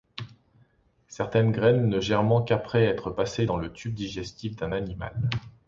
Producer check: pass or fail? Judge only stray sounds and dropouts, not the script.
pass